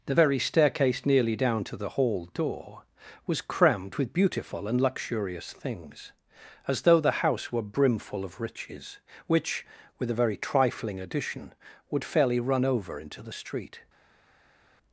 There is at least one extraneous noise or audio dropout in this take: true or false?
false